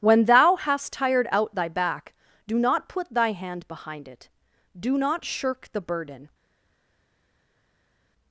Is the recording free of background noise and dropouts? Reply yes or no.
yes